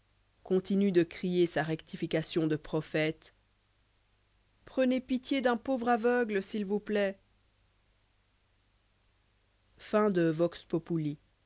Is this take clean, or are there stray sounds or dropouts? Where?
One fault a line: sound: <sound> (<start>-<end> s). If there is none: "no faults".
no faults